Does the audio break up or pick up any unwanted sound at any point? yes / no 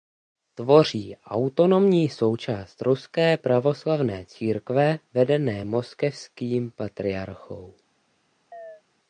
yes